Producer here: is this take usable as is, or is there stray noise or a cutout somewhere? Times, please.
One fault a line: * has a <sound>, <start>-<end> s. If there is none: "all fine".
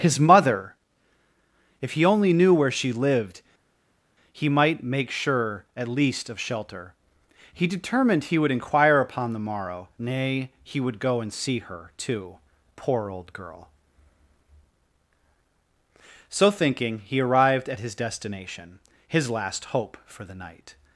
all fine